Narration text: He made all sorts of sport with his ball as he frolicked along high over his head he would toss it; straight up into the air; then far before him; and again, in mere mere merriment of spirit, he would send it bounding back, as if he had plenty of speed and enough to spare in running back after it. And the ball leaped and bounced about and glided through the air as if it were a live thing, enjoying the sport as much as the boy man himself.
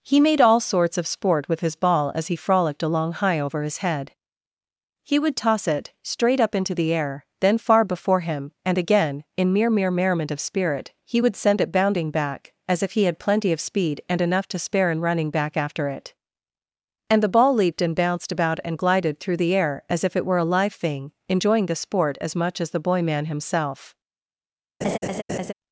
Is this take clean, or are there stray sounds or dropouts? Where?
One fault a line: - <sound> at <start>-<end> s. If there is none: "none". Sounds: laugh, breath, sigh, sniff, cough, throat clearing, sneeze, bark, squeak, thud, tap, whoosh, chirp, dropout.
- laugh at 24.8-25.5 s